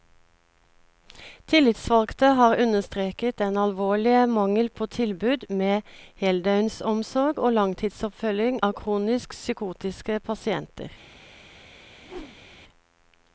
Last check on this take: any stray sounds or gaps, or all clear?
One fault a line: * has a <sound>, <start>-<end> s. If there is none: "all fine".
* has a whoosh, 12.0-12.6 s